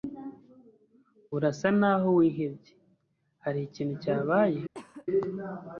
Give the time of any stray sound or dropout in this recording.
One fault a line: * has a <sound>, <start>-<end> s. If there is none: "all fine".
* has a cough, 4.7-5.1 s